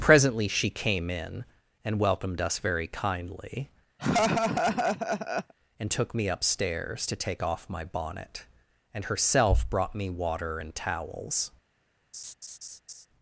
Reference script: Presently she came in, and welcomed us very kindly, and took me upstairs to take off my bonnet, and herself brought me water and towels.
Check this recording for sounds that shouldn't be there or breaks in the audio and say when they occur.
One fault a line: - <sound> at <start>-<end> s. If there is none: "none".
- laugh at 4.0-5.5 s
- laugh at 12.1-13.1 s